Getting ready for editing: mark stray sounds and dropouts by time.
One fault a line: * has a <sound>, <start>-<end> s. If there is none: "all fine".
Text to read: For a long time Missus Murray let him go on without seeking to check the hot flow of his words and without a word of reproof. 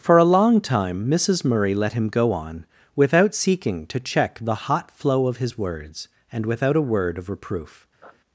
* has a sniff, 8.0-8.2 s